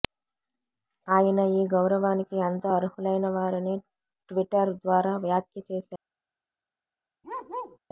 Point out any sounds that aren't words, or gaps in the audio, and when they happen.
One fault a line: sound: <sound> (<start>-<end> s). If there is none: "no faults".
sound: bark (7.2-7.8 s)